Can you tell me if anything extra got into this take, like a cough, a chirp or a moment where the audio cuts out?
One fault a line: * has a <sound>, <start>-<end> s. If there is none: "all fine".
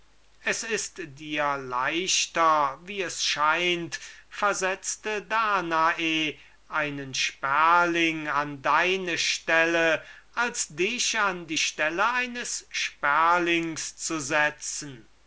all fine